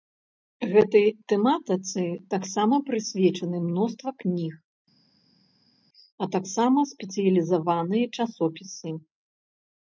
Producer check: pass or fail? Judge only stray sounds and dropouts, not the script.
pass